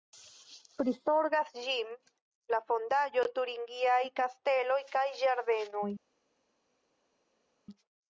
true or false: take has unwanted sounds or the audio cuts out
false